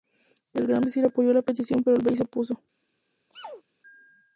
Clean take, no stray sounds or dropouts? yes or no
no